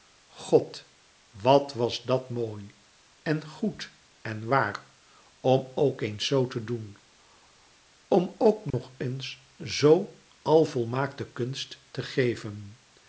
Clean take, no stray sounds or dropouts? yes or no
no